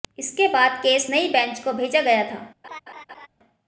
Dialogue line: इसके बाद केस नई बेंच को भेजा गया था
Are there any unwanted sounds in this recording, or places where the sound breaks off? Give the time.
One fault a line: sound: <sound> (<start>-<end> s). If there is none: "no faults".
sound: laugh (2.6-3.3 s)